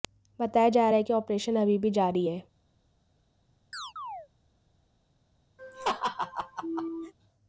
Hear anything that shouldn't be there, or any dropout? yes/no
yes